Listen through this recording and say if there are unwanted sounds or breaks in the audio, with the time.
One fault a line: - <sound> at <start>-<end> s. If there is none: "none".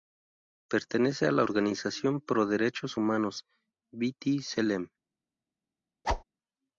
- whoosh at 6.0-6.2 s